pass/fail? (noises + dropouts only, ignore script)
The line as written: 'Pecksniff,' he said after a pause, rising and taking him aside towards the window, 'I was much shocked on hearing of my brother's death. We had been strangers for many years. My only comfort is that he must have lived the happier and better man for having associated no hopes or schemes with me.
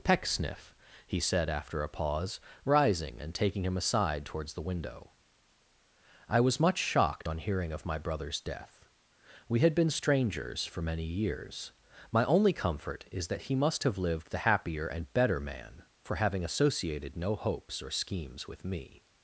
pass